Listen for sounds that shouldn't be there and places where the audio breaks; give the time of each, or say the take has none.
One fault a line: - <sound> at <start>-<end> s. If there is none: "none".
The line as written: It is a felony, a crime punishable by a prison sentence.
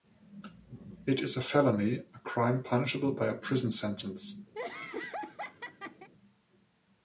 - laugh at 4.5-6.1 s